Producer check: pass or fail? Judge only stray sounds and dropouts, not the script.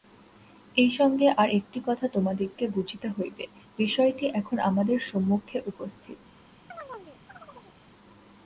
fail